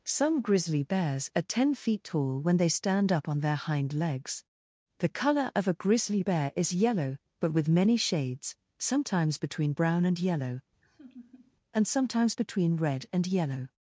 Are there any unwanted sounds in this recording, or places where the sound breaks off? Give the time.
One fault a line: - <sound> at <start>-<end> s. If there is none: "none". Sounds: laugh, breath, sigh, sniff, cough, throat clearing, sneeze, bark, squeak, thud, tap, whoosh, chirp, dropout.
- laugh at 10.8-11.6 s